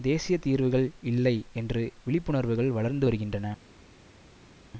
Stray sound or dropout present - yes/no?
no